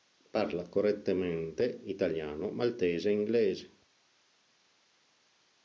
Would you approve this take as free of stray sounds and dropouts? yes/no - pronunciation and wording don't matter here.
yes